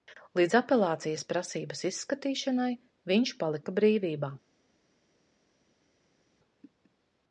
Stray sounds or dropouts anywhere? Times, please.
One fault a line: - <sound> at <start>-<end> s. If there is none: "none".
none